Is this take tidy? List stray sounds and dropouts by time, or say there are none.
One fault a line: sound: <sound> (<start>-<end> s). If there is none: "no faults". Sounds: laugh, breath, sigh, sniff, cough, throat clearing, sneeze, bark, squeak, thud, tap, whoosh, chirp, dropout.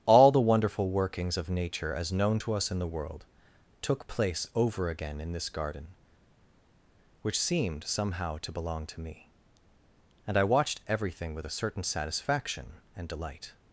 no faults